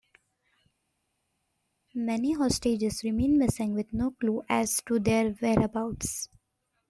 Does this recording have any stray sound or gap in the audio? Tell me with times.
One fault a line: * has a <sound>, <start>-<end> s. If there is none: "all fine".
all fine